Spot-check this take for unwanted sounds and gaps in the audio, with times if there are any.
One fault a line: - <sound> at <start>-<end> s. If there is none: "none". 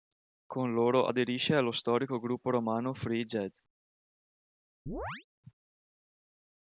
- chirp at 4.9-5.3 s